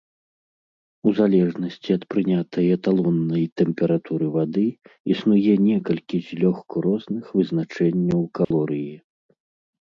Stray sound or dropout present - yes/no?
yes